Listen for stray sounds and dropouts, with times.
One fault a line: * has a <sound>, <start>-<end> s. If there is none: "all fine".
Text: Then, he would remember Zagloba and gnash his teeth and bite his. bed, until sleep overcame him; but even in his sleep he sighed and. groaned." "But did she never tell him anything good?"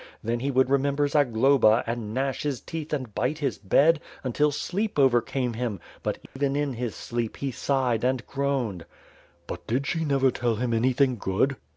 * has a dropout, 6.3-6.4 s